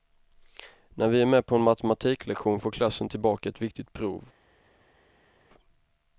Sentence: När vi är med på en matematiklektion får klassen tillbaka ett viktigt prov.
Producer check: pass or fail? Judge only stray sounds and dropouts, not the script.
pass